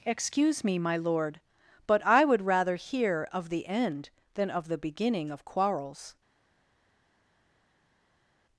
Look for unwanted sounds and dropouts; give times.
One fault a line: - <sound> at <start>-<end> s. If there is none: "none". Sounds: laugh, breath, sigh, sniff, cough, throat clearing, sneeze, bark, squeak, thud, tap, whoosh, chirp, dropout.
none